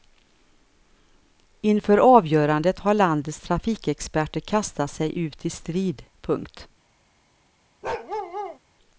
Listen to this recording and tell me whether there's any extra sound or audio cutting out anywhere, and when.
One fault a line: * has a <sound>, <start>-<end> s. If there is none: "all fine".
* has a bark, 7.8-8.6 s